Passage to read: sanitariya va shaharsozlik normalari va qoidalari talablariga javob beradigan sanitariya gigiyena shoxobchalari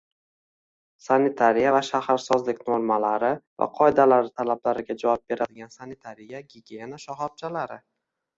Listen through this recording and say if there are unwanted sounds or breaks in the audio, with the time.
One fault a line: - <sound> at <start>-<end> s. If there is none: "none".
none